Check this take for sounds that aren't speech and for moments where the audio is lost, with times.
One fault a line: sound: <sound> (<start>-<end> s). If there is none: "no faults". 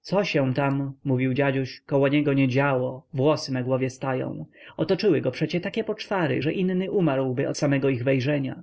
no faults